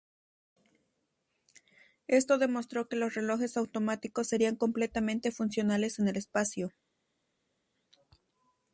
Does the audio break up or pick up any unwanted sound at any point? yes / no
no